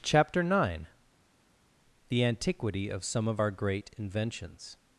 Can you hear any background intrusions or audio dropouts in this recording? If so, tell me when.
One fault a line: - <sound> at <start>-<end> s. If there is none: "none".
none